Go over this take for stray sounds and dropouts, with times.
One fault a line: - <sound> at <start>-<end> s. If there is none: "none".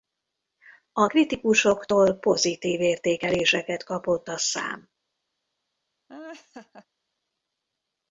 - laugh at 6.1-6.9 s